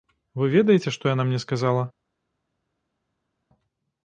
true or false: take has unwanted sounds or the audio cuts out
false